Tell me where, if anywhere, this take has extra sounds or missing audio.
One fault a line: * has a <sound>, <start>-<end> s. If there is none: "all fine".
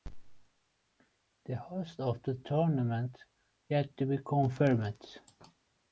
all fine